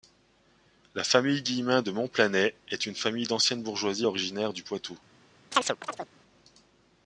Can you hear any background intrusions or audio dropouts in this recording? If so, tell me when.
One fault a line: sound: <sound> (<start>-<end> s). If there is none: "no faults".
sound: chirp (5.5-6.1 s)